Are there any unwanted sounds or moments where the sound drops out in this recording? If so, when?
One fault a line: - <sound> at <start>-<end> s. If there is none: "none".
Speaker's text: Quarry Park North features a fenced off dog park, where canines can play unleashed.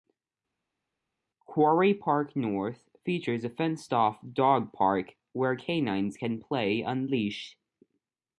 none